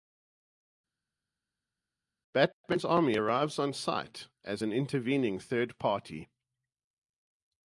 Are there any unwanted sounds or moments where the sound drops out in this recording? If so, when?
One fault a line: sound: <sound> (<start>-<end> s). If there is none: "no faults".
no faults